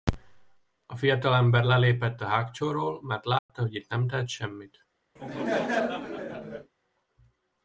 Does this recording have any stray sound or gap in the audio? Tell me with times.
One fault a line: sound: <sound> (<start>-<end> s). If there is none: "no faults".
sound: dropout (3.4-3.5 s)
sound: laugh (5.2-6.7 s)